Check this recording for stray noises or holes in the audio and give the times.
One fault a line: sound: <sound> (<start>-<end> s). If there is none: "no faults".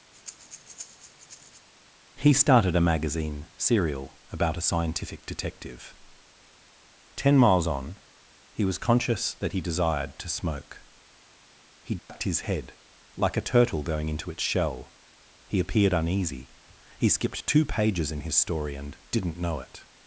sound: breath (0.1-1.7 s)
sound: dropout (12.0-12.1 s)